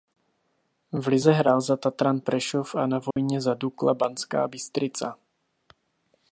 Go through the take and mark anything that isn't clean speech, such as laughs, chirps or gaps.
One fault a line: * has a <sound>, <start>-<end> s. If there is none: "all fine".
* has a dropout, 3.1-3.2 s